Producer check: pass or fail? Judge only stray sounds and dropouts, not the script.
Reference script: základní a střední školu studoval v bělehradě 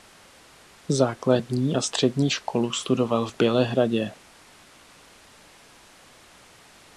pass